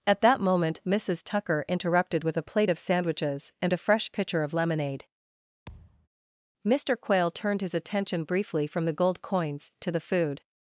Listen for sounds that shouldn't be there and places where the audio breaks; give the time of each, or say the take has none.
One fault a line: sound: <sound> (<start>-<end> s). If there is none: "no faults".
sound: thud (5.7-6.1 s)